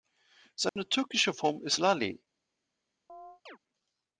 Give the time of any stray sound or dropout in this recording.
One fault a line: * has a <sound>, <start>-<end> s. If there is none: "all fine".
* has a dropout, 0.7-0.8 s
* has a chirp, 3.1-3.6 s